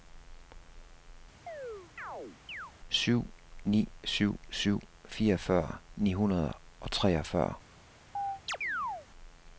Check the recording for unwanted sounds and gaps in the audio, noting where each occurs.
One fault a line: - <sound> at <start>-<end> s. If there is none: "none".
- chirp at 1.5-2.7 s
- chirp at 8.1-9.1 s